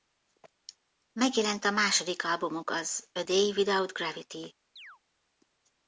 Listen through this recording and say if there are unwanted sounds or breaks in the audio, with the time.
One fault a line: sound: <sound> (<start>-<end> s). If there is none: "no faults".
sound: chirp (4.8-5.0 s)